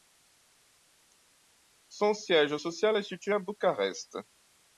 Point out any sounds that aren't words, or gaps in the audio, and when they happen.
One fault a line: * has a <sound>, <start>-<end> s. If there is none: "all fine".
all fine